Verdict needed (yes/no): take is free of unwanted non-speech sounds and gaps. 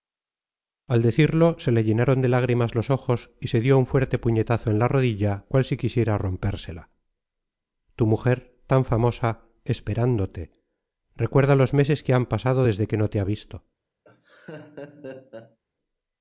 no